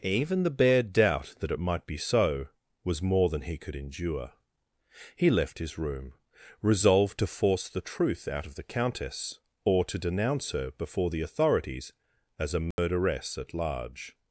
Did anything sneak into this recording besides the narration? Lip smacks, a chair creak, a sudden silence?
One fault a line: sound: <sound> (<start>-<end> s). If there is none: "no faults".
sound: dropout (12.7-12.8 s)